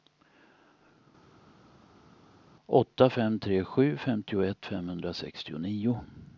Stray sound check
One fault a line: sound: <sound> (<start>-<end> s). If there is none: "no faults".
no faults